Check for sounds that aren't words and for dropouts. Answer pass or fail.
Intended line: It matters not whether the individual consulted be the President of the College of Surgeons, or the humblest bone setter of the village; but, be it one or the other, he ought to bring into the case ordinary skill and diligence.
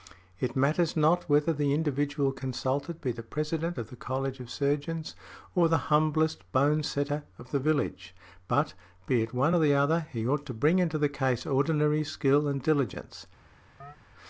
fail